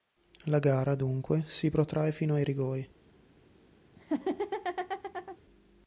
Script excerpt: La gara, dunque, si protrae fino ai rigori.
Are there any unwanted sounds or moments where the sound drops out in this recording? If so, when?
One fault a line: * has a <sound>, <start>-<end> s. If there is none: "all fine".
* has a laugh, 4.0-5.4 s